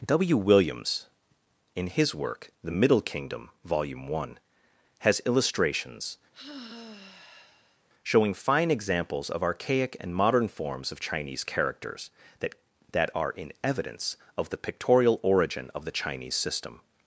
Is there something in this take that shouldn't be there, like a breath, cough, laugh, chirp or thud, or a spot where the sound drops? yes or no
yes